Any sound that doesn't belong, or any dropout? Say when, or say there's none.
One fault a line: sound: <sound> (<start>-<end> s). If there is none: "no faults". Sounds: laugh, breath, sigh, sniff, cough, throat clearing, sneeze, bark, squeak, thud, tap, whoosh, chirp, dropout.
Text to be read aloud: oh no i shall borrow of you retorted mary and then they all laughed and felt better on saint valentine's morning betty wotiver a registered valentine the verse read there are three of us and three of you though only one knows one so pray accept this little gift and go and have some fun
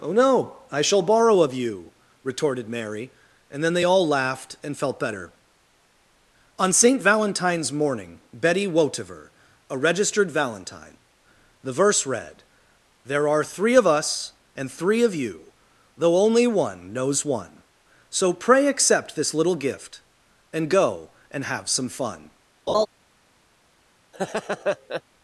sound: laugh (22.7-22.9 s)
sound: laugh (24.1-25.0 s)